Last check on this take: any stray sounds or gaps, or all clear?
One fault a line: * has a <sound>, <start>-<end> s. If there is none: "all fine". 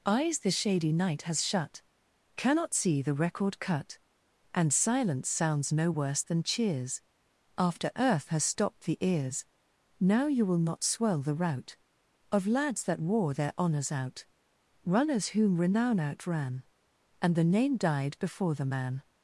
all fine